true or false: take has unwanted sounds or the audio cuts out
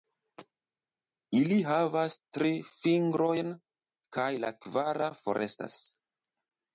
false